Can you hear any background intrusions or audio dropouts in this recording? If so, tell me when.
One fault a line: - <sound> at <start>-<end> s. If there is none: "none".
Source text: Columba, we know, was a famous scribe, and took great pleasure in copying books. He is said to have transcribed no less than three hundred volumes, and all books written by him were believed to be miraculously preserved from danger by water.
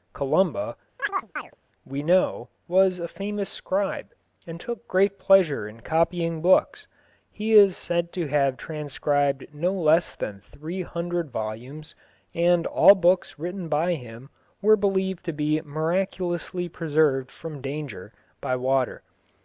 - chirp at 1.0-1.6 s